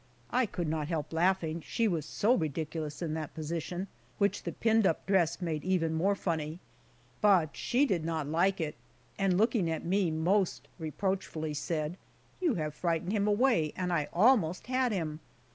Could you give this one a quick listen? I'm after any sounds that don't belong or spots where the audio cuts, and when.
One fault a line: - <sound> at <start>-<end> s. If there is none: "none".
none